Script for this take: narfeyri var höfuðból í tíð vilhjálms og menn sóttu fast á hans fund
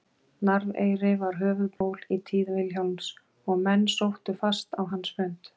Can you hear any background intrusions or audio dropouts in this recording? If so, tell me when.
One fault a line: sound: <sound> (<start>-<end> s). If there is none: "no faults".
sound: dropout (1.8-1.8 s)